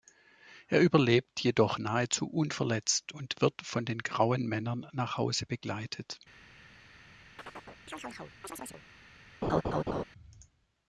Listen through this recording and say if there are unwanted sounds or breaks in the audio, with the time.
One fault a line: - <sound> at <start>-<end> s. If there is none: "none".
- chirp at 7.4-8.8 s
- laugh at 9.4-10.0 s